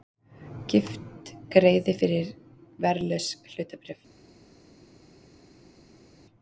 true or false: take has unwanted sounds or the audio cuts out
false